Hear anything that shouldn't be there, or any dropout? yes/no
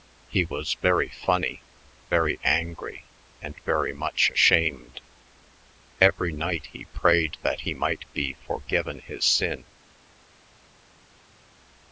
no